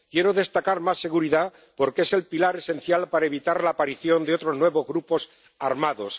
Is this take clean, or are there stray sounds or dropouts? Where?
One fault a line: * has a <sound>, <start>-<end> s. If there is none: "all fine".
all fine